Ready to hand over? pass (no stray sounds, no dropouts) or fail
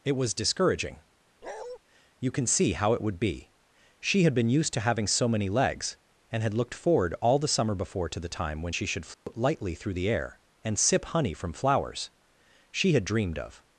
fail